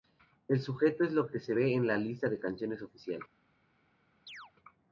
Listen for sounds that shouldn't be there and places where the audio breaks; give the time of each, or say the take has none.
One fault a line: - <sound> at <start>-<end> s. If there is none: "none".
- chirp at 4.3-4.5 s